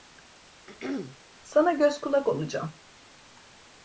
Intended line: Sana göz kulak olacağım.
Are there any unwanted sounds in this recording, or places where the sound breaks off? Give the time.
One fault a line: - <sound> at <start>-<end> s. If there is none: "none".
- throat clearing at 0.7-1.2 s